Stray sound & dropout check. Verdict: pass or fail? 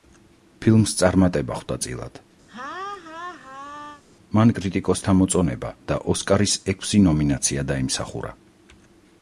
fail